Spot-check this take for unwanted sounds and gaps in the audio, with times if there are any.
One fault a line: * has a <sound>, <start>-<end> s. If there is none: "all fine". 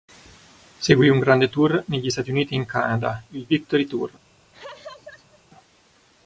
* has a laugh, 4.5-5.4 s